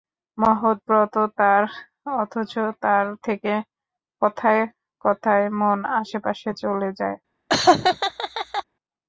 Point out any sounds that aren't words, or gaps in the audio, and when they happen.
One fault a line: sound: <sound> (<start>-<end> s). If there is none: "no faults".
sound: laugh (7.5-8.6 s)